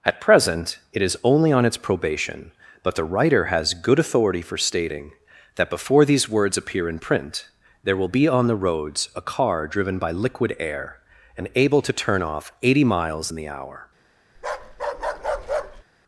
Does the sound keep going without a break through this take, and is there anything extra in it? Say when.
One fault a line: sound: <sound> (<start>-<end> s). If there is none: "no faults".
sound: bark (14.4-15.8 s)